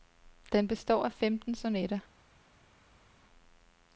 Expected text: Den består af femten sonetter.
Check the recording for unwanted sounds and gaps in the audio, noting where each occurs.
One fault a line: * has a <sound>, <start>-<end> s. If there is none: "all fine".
all fine